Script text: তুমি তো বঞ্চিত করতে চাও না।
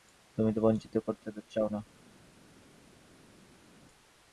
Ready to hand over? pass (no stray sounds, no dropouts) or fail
pass